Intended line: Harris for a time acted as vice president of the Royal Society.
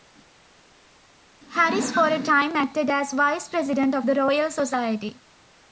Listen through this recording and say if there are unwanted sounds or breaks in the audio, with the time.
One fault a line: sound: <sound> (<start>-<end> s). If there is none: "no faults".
no faults